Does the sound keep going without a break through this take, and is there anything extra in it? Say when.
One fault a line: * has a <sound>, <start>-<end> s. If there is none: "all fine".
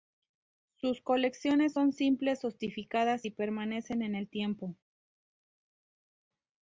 all fine